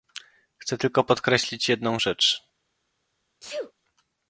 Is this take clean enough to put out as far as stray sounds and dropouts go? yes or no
no